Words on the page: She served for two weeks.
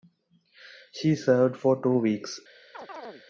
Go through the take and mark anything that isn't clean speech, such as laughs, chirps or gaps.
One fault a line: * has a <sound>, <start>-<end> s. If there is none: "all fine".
* has a chirp, 2.7-3.2 s